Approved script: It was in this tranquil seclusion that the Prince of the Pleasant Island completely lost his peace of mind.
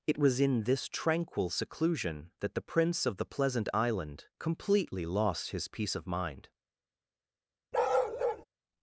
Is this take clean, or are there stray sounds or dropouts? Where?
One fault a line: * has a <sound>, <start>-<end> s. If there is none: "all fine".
* has a bark, 7.7-8.4 s